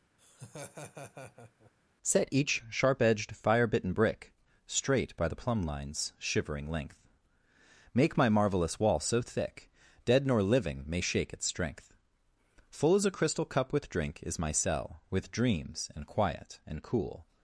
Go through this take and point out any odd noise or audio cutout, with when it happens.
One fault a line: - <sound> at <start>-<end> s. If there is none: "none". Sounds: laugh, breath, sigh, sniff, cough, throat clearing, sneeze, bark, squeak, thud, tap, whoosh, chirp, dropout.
- laugh at 0.2-1.7 s